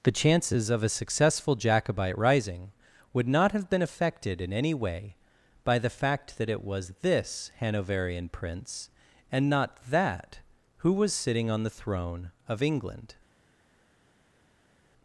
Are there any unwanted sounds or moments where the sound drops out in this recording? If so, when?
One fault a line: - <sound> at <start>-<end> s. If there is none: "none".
none